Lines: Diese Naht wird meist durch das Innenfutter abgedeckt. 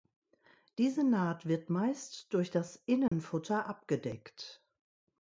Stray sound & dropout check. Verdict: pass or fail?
fail